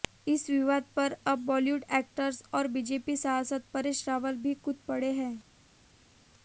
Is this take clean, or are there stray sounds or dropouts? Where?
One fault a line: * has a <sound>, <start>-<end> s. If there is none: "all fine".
all fine